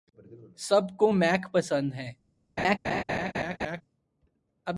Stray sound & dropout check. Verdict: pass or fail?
fail